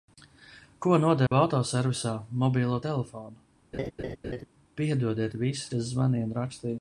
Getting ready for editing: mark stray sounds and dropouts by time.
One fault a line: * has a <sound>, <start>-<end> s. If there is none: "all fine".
* has a dropout, 1.3-1.3 s
* has a laugh, 3.7-4.5 s